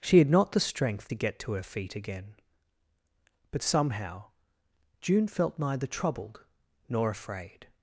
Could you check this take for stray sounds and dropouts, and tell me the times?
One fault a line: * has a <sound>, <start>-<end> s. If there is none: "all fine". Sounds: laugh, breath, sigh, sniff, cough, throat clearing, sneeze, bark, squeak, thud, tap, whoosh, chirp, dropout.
all fine